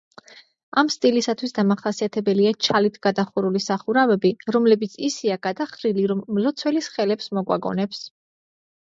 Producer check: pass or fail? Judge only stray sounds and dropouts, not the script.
pass